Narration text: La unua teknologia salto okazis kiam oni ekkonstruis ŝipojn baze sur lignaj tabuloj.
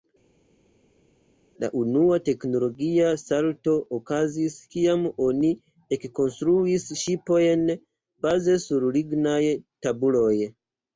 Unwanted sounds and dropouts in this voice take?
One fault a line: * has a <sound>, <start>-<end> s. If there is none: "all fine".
all fine